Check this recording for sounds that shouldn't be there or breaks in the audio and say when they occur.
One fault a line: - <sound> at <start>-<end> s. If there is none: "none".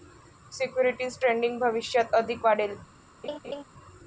- laugh at 3.2-3.6 s